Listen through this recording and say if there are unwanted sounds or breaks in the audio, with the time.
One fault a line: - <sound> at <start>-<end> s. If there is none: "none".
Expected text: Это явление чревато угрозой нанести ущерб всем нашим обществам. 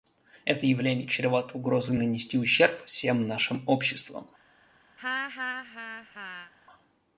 - laugh at 5.0-6.5 s